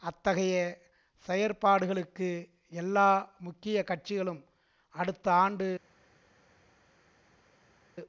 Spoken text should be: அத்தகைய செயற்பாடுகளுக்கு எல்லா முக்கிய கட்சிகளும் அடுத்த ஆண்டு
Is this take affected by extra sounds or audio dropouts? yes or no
no